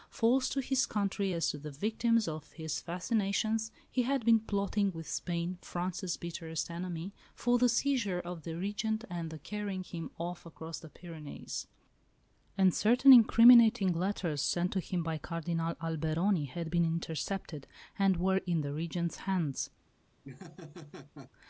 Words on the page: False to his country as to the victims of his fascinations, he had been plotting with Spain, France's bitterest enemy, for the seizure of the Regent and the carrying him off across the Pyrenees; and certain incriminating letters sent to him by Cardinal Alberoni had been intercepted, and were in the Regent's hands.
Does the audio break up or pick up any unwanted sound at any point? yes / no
yes